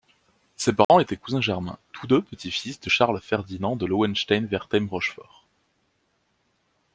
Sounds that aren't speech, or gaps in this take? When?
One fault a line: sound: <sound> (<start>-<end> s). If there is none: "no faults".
sound: dropout (0.8-0.9 s)